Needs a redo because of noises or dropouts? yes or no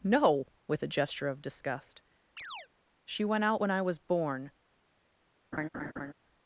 yes